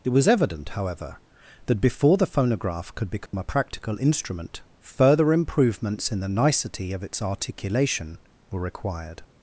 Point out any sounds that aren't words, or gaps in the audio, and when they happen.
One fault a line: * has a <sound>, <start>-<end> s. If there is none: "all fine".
* has a dropout, 3.3-3.3 s